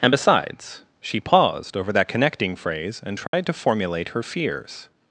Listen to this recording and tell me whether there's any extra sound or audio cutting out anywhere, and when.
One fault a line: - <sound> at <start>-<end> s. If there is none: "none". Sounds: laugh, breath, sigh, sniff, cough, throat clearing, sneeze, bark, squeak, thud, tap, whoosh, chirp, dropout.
- dropout at 3.3-3.3 s